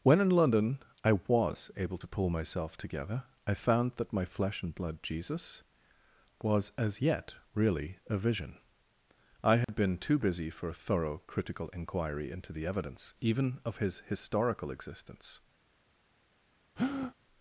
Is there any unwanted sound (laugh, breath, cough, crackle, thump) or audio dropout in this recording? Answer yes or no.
yes